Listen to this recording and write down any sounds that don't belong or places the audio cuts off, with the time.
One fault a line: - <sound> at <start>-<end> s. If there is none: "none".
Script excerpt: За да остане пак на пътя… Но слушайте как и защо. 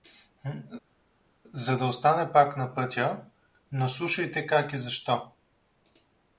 none